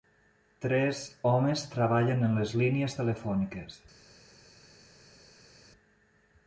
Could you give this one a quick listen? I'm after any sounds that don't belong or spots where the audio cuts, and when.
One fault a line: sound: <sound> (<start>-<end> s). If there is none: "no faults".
no faults